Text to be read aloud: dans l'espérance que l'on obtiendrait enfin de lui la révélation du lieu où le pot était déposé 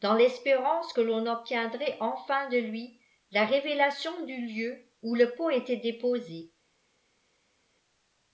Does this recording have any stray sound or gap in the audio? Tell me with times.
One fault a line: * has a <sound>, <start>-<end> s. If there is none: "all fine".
all fine